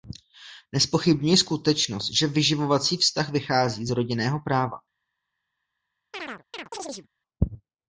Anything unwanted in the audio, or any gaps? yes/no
yes